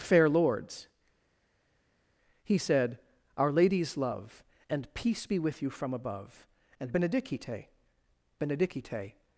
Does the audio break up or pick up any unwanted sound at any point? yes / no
no